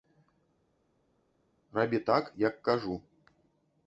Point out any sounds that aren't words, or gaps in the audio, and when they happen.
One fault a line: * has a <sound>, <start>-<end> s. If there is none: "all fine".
all fine